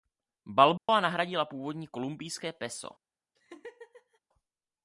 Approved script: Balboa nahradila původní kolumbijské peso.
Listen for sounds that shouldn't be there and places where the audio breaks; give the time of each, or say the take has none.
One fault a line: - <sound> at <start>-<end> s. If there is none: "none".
- dropout at 0.8-0.9 s
- laugh at 3.4-4.2 s